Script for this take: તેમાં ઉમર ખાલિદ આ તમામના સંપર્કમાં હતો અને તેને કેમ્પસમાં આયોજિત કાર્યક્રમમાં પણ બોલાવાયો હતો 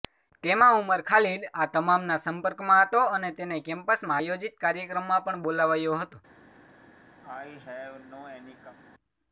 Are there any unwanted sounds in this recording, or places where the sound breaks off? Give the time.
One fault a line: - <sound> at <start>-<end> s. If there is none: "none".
- cough at 7.2-8.8 s